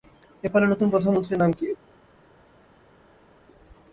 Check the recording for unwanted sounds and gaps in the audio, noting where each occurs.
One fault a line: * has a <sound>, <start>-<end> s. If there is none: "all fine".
all fine